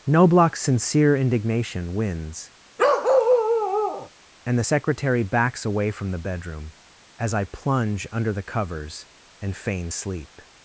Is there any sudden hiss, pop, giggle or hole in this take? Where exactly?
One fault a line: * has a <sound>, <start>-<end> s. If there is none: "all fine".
* has a bark, 2.8-4.1 s